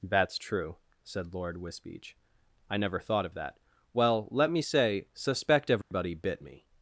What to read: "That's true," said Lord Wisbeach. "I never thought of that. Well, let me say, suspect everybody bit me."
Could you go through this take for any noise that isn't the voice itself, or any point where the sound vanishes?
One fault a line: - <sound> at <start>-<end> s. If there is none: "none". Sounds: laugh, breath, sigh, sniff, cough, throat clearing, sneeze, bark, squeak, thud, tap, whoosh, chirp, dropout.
- dropout at 5.8-5.9 s